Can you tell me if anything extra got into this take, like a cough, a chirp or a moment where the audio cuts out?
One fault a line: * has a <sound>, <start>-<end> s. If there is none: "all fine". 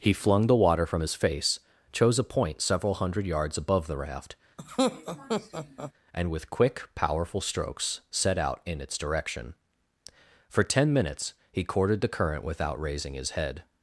* has a laugh, 4.6-5.9 s